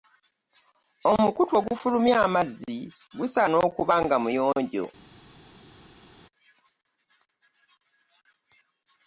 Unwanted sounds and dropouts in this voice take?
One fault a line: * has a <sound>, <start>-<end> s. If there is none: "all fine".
all fine